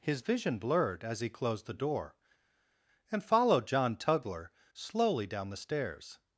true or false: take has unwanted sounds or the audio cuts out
false